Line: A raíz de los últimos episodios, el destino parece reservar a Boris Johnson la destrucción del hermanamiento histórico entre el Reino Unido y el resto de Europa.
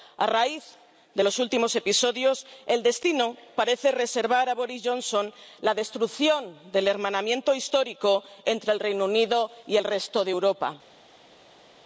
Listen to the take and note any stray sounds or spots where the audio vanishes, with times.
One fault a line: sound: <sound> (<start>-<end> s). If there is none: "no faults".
no faults